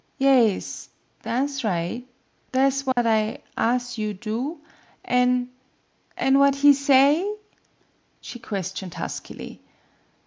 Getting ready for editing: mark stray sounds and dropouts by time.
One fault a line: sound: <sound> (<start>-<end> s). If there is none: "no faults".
sound: dropout (2.9-3.0 s)